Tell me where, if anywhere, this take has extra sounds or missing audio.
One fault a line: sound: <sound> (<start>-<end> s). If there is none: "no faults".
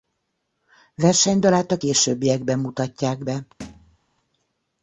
sound: thud (3.6-4.0 s)